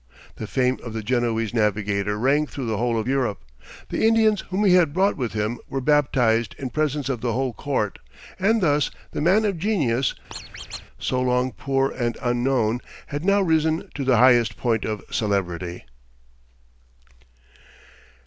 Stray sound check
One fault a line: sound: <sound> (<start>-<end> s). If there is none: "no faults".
sound: squeak (10.3-10.9 s)